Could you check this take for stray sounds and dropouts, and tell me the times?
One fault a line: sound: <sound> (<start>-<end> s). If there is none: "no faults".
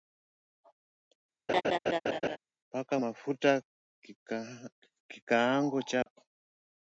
sound: laugh (1.5-2.4 s)
sound: dropout (6.0-6.1 s)